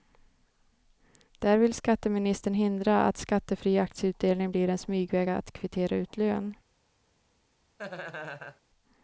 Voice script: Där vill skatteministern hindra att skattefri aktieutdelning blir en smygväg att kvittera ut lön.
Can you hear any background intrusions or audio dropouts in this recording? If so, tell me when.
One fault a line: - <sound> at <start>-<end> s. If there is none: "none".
- laugh at 7.8-8.6 s